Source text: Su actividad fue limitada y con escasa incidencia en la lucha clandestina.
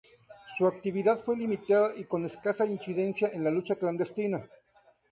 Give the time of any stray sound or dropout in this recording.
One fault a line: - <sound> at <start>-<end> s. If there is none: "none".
none